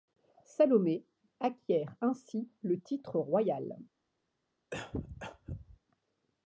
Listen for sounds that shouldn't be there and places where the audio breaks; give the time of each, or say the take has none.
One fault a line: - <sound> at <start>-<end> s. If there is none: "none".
- cough at 4.7-5.8 s